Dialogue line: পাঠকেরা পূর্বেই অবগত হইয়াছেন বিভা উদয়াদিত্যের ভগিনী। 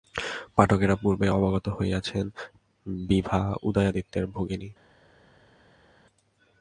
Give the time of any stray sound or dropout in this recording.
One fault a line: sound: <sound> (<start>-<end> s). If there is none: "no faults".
no faults